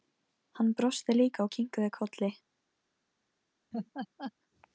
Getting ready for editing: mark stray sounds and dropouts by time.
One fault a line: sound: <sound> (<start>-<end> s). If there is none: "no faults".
sound: laugh (3.7-4.3 s)